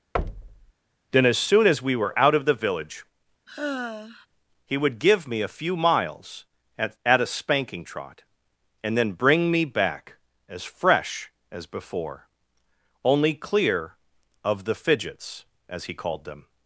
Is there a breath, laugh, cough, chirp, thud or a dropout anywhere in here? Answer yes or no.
yes